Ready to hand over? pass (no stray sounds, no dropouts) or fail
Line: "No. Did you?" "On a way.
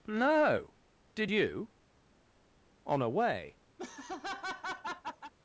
fail